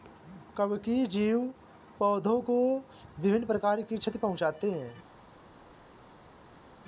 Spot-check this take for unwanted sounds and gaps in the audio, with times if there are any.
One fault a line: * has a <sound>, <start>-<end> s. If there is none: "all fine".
all fine